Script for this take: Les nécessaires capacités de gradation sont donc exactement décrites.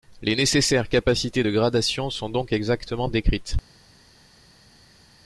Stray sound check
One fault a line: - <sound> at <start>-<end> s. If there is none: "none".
none